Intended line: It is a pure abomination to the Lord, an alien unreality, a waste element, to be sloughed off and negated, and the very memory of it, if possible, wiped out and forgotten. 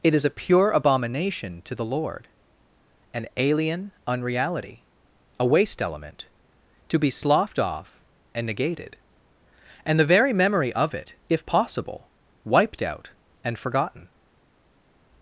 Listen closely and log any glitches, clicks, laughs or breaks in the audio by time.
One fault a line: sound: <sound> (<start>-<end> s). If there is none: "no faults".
no faults